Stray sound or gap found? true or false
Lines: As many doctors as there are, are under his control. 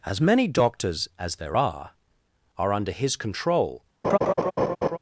true